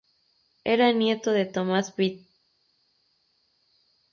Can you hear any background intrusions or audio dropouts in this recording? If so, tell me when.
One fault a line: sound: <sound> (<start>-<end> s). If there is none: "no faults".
no faults